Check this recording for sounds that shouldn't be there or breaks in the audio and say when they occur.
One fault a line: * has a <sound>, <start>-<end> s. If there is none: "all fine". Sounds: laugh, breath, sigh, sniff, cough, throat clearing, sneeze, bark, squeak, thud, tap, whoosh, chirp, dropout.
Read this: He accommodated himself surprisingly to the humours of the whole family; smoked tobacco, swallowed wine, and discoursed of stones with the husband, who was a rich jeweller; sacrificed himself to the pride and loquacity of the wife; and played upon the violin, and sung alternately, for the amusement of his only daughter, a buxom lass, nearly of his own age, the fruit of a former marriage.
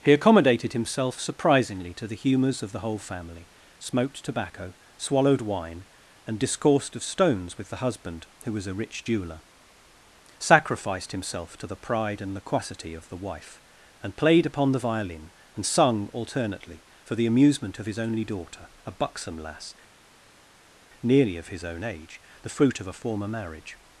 all fine